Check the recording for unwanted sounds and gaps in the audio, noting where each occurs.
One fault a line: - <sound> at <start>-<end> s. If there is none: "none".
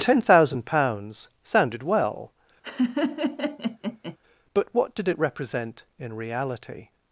- laugh at 2.6-4.2 s